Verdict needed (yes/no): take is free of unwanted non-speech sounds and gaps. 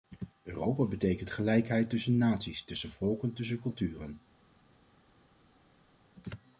yes